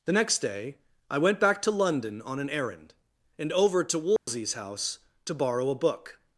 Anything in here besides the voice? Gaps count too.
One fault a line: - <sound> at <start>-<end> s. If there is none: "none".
- dropout at 4.2-4.3 s